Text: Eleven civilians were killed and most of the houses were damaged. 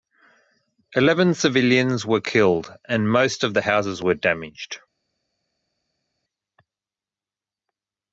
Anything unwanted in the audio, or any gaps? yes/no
no